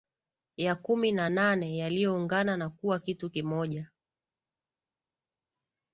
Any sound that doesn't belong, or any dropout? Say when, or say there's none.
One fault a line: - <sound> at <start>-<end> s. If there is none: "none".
none